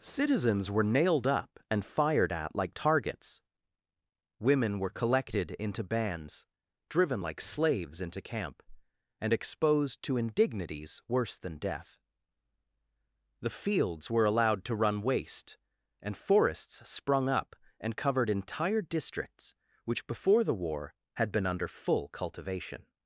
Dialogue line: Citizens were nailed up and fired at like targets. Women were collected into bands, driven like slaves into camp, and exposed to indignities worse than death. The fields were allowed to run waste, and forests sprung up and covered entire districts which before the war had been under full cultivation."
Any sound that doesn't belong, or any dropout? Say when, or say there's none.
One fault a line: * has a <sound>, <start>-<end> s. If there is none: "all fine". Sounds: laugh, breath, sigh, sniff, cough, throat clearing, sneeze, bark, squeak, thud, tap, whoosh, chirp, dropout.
all fine